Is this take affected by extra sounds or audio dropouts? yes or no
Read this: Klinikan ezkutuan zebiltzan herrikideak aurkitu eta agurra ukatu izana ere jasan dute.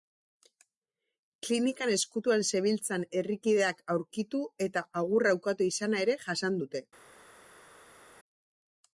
no